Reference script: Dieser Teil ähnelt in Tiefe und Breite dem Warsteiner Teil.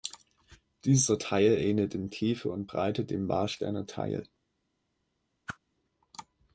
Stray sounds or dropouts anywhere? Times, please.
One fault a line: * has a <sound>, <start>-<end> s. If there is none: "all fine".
* has a whoosh, 5.5-5.6 s